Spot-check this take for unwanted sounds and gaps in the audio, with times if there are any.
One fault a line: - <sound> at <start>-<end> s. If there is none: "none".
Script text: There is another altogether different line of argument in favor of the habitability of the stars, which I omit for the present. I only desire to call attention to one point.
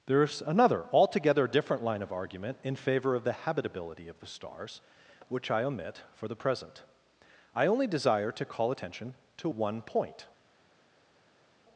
none